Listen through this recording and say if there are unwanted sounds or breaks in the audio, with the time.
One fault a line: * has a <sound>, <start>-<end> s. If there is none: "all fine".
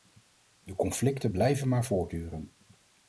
all fine